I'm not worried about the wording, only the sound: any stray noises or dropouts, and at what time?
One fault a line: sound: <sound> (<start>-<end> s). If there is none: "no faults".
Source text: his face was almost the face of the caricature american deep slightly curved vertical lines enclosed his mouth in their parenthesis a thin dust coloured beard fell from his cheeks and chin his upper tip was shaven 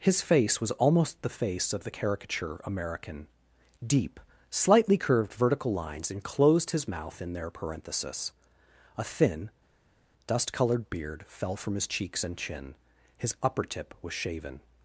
no faults